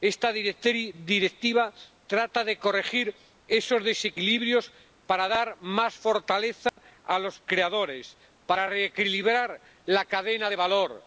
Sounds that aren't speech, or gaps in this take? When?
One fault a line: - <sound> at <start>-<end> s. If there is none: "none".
- dropout at 6.7-6.8 s